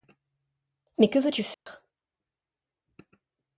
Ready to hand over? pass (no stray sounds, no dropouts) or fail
fail